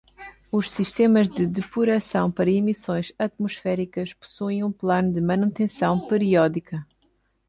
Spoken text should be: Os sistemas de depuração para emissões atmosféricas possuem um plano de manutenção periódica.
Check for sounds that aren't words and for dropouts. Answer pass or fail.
pass